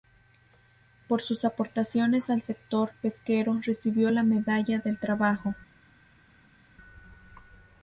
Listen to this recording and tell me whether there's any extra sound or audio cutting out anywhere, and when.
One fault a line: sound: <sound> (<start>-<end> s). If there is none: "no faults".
no faults